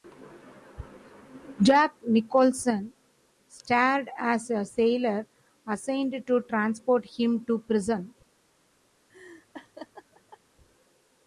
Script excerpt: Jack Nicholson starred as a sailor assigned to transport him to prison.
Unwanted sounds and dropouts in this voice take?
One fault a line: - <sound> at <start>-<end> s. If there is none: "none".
- laugh at 9.1-10.4 s